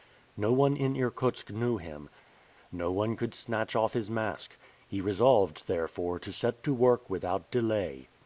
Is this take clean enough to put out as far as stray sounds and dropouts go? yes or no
yes